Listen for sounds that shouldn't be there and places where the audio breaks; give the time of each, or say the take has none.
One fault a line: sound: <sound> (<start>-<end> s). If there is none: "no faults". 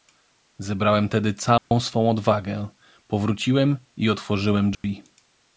sound: dropout (1.6-1.7 s)
sound: dropout (4.7-4.8 s)